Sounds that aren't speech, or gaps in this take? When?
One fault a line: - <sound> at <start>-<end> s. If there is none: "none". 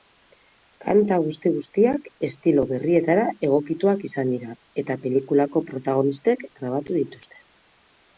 none